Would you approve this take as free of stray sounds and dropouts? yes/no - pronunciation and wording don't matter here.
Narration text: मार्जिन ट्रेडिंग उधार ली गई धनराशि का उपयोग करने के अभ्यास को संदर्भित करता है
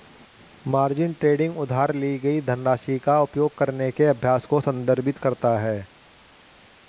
yes